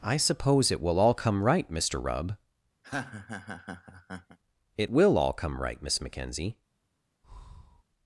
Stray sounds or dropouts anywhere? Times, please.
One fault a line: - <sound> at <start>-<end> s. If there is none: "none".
- laugh at 2.8-4.4 s
- breath at 7.2-7.8 s